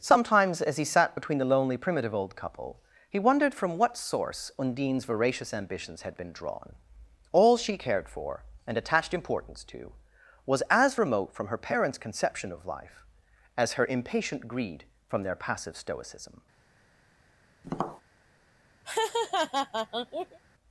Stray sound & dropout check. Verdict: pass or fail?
fail